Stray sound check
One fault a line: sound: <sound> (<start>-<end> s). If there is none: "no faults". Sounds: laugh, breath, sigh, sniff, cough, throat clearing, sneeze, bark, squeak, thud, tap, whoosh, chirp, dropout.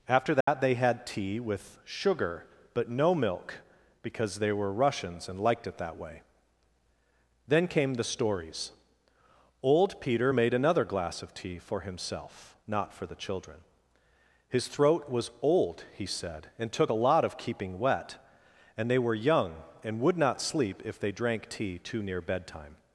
sound: dropout (0.4-0.5 s)